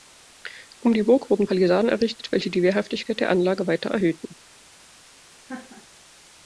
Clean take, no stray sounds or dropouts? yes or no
no